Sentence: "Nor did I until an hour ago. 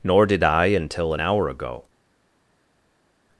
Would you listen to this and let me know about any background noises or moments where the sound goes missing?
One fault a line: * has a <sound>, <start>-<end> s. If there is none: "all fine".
all fine